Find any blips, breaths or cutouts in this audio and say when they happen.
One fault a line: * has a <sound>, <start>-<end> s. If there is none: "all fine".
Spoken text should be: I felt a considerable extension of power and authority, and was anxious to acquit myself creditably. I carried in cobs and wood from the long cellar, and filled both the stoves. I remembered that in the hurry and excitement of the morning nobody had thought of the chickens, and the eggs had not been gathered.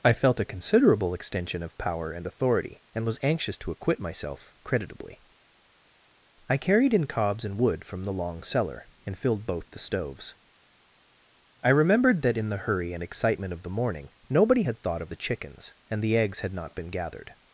all fine